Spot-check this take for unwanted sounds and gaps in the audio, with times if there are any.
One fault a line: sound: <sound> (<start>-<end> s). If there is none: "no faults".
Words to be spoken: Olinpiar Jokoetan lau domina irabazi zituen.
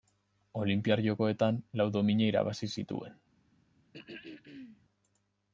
sound: throat clearing (3.9-4.8 s)